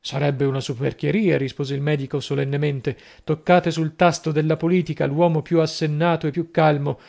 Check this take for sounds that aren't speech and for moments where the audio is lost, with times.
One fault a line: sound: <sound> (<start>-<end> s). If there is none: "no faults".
no faults